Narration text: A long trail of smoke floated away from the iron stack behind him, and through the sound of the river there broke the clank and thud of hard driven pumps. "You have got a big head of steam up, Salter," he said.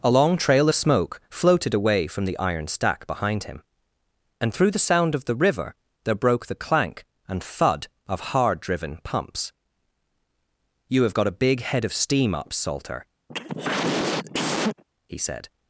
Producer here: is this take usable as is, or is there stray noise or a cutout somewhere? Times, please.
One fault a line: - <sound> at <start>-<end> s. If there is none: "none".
- cough at 13.3-14.8 s